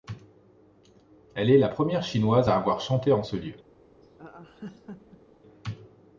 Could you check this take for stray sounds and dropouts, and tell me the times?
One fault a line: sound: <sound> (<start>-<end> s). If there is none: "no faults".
sound: laugh (4.0-5.4 s)